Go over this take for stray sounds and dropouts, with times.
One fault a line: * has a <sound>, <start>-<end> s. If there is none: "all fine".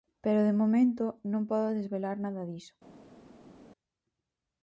all fine